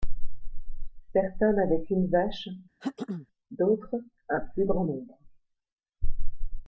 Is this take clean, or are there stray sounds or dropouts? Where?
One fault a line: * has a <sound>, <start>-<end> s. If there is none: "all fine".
* has a throat clearing, 2.8-3.3 s